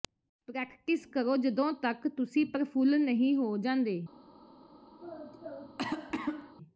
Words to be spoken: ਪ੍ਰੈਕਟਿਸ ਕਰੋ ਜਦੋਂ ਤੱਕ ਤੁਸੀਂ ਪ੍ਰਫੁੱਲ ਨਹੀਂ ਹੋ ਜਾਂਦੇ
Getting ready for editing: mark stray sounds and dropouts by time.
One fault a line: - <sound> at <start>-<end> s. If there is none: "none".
- cough at 5.0-6.5 s